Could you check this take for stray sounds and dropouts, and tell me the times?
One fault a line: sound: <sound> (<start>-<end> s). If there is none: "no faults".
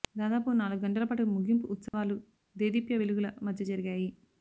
sound: dropout (1.9-1.9 s)